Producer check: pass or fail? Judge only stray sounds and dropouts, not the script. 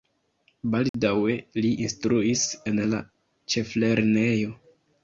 fail